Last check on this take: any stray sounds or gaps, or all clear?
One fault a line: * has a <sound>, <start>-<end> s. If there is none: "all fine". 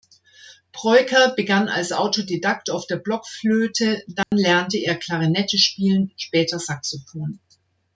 * has a dropout, 4.2-4.3 s